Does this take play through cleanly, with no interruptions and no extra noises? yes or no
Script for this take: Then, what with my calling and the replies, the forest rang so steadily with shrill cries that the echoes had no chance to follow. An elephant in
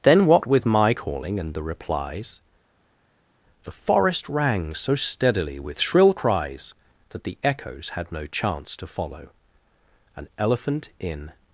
yes